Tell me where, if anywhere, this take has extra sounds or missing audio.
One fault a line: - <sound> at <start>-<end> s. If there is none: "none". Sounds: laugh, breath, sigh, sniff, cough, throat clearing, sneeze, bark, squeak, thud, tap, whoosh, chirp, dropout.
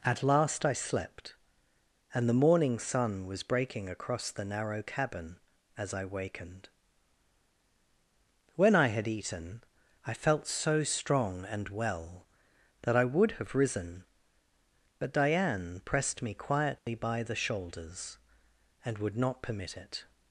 - dropout at 16.8-16.9 s